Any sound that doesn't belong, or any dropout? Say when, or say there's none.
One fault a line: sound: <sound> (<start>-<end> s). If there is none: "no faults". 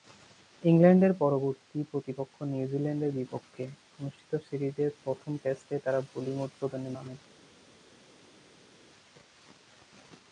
no faults